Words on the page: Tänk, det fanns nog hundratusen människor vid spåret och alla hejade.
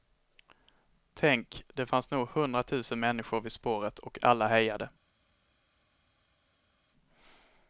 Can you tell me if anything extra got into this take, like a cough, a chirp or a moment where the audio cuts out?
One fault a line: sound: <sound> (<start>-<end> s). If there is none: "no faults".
no faults